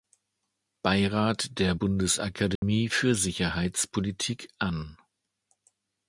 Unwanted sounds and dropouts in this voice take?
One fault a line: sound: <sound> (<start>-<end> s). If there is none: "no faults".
sound: dropout (2.6-2.6 s)